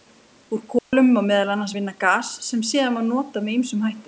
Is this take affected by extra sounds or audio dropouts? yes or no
yes